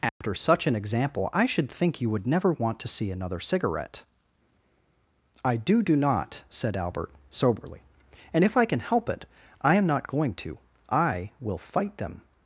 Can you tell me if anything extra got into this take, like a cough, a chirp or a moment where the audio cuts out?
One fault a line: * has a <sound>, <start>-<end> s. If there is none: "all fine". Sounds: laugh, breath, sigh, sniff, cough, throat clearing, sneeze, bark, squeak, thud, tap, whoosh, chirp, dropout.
* has a dropout, 0.1-0.2 s